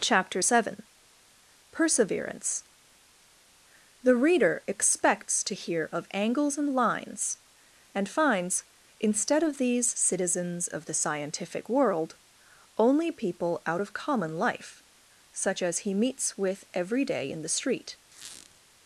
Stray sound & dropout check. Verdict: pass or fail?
fail